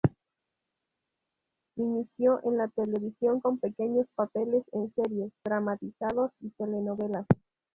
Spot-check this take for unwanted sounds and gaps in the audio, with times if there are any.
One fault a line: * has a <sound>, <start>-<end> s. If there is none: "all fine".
all fine